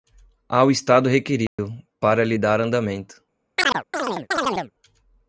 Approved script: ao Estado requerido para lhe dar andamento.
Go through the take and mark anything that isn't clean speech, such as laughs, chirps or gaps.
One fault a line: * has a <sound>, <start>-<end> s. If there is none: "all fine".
* has a dropout, 1.5-1.6 s
* has a chirp, 3.6-4.7 s